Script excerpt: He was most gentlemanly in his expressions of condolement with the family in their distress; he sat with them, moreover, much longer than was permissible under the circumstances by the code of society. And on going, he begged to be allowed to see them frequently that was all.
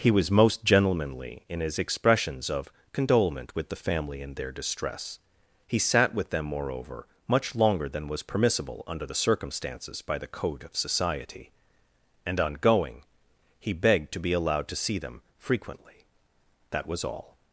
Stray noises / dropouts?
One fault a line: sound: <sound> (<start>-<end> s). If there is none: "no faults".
no faults